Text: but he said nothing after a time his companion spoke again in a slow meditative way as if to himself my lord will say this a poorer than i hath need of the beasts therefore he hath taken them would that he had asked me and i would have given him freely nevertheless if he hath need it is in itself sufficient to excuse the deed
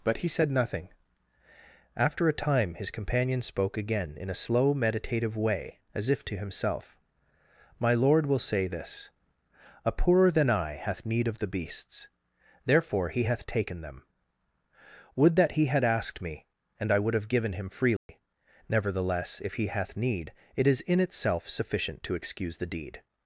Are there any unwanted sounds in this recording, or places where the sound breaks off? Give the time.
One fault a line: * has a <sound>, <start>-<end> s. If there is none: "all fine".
* has a dropout, 18.0-18.1 s